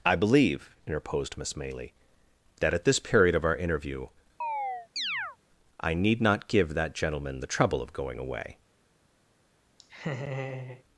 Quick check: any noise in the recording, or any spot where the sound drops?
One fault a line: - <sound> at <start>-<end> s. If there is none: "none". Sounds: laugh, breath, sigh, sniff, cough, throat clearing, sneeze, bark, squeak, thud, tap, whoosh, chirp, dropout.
- chirp at 4.4-5.4 s
- laugh at 9.8-10.8 s